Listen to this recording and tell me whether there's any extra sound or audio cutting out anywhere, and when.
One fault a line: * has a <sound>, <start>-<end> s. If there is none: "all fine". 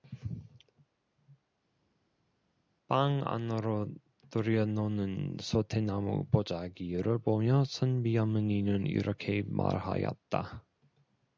all fine